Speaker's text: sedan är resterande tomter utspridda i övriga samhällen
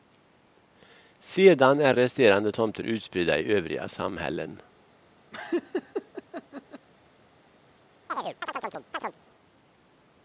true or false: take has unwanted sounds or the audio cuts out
true